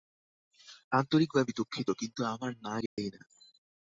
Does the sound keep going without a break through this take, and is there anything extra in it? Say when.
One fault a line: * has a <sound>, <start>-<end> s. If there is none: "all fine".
* has a dropout, 2.9-3.0 s